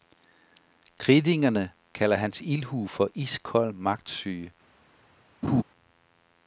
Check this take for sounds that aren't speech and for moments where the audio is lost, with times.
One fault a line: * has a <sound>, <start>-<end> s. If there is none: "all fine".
* has a laugh, 5.4-5.6 s